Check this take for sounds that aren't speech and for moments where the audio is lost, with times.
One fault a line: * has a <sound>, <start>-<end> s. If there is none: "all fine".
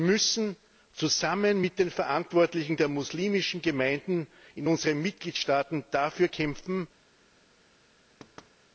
* has a thud, 8.2-8.5 s